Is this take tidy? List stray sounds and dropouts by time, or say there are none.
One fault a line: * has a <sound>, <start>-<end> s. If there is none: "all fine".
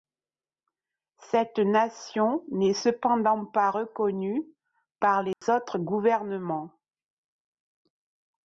* has a dropout, 5.3-5.4 s